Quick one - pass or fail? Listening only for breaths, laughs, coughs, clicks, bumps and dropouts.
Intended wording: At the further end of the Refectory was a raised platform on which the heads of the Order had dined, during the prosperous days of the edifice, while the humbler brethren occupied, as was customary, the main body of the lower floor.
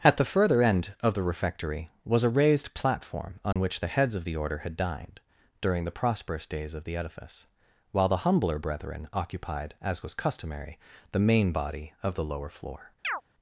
fail